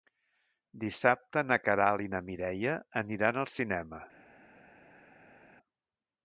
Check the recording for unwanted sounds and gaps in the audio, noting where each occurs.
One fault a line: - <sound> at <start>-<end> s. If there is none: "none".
none